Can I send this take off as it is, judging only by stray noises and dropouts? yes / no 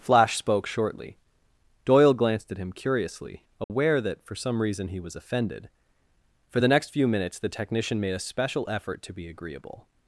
no